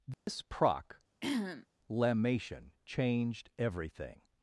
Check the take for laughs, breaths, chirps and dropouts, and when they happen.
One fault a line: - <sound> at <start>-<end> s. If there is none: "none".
- dropout at 0.1-0.3 s
- throat clearing at 1.2-1.7 s